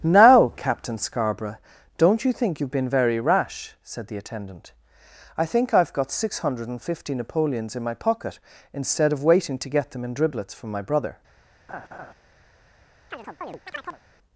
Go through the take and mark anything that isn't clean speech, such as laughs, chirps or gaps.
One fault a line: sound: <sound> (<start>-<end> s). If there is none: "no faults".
sound: laugh (11.7-12.1 s)
sound: chirp (13.1-14.0 s)